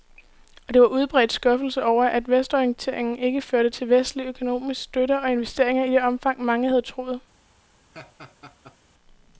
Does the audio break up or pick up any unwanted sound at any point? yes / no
yes